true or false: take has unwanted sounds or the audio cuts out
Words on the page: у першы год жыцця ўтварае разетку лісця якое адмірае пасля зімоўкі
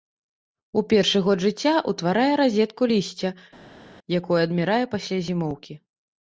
false